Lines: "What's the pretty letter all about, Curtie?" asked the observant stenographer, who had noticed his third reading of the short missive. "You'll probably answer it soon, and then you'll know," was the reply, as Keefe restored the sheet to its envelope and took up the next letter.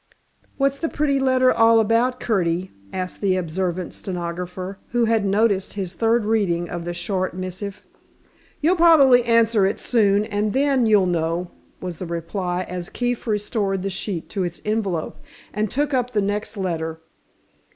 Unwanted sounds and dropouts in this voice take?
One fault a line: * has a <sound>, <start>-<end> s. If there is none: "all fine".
all fine